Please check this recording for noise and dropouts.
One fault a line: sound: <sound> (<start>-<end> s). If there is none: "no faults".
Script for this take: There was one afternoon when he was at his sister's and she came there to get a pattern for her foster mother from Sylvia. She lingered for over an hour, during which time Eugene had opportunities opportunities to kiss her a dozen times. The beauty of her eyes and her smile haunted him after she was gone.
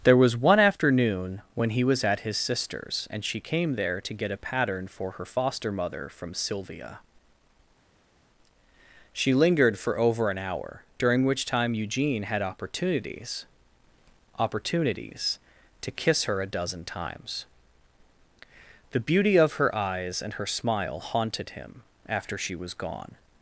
no faults